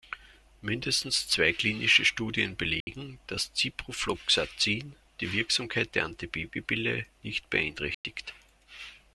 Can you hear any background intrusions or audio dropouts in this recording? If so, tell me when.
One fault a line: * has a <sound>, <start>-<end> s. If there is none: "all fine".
* has a dropout, 2.8-2.9 s
* has a dropout, 7.9-8.0 s